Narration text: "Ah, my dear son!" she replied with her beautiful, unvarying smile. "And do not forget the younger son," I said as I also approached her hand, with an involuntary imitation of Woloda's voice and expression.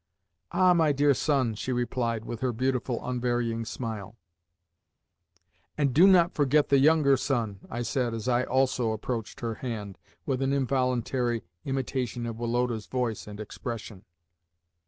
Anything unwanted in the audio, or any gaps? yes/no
no